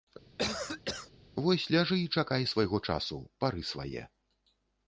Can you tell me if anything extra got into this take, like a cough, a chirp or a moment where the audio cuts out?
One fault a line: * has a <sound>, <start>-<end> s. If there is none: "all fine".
* has a cough, 0.4-1.1 s